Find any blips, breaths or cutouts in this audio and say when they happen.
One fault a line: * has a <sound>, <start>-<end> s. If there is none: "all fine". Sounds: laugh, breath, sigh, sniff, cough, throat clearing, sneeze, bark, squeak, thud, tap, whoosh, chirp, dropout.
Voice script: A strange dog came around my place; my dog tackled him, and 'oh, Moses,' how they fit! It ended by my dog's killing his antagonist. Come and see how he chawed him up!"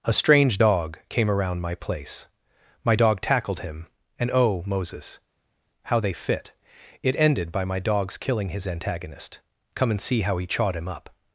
all fine